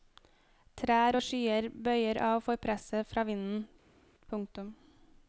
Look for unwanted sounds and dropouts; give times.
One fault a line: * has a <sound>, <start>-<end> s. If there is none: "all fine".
all fine